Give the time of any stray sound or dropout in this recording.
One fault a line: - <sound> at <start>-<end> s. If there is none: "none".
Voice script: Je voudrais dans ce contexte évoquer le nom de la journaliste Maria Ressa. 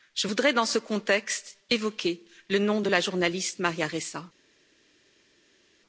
none